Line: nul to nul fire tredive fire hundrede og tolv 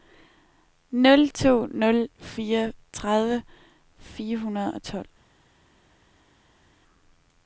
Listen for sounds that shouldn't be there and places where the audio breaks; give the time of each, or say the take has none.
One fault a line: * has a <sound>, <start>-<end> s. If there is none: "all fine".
all fine